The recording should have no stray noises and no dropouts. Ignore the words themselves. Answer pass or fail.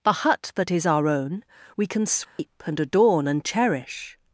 fail